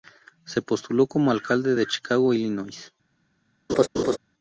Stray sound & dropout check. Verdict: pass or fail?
fail